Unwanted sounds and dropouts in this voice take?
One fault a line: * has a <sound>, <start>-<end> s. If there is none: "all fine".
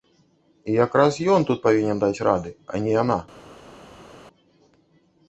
all fine